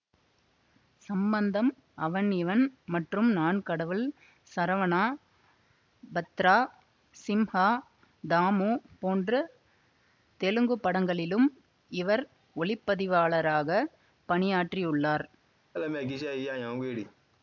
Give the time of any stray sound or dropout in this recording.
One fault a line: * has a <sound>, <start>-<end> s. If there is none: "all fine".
* has a laugh, 15.7-17.2 s